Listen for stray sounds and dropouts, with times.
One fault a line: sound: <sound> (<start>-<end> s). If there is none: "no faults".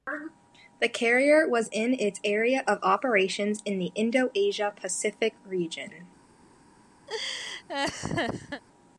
sound: laugh (7.1-8.6 s)